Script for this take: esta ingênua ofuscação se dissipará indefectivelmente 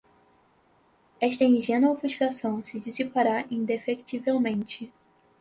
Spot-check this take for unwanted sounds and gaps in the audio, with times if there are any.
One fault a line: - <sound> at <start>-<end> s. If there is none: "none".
none